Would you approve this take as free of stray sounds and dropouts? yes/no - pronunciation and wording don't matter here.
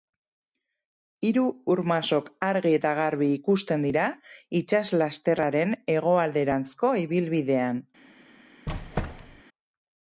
no